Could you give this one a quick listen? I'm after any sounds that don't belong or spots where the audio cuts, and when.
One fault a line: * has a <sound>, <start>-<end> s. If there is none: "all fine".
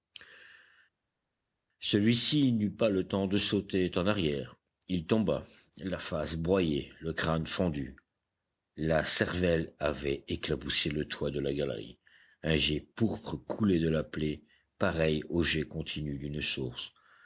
all fine